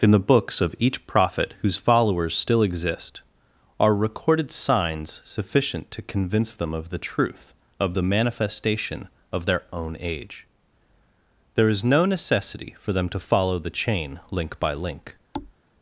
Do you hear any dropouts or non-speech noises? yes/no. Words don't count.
yes